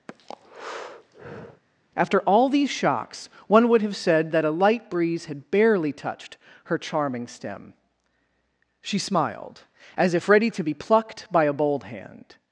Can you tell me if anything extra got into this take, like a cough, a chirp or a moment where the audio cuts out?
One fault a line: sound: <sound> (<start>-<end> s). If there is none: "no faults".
sound: breath (0.1-1.6 s)